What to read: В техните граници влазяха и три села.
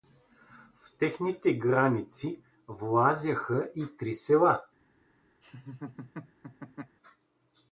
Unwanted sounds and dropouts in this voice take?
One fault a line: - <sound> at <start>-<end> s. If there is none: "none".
- laugh at 5.4-7.0 s